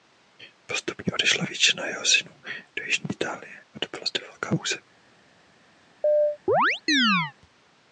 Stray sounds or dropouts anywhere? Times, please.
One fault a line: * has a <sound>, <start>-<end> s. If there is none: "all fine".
* has a chirp, 6.0-7.3 s